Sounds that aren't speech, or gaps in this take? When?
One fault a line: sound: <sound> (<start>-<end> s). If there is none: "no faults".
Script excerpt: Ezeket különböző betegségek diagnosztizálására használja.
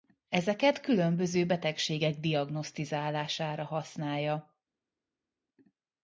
no faults